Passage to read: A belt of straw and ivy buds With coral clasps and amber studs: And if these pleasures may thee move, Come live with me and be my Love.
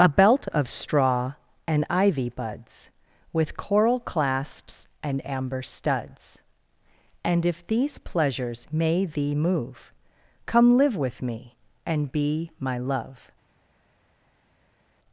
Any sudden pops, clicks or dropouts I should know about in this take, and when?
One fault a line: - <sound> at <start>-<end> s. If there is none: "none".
none